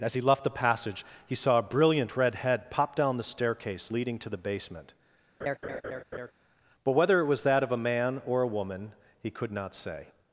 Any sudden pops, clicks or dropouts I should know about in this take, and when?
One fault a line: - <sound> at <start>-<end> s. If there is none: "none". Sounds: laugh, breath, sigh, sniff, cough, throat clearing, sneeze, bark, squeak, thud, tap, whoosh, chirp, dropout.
- laugh at 5.4-6.3 s